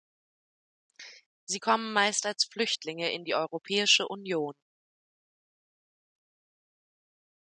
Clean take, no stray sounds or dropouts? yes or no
yes